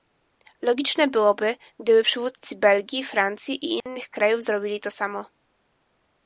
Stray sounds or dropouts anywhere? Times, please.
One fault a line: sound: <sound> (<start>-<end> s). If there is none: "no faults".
sound: dropout (3.8-3.9 s)